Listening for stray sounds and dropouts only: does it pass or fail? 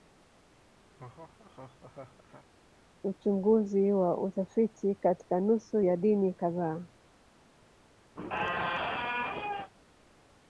fail